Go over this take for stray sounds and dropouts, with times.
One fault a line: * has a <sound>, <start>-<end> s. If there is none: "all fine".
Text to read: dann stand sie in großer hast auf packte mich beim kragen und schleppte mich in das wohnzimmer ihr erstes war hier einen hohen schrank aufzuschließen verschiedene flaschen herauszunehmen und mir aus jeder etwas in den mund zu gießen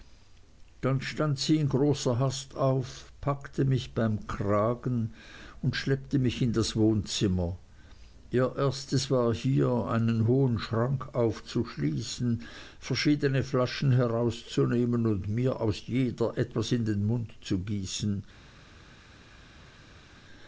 all fine